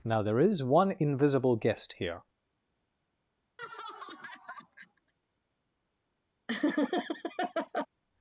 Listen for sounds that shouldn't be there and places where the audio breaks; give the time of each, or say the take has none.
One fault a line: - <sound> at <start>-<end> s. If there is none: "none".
- laugh at 3.6-5.1 s
- laugh at 6.5-7.9 s